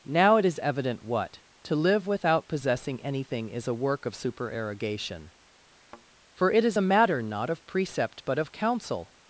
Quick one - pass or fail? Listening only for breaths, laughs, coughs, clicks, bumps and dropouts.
fail